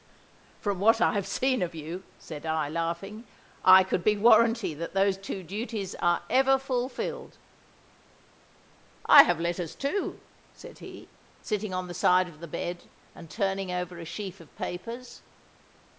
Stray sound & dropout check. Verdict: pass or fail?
pass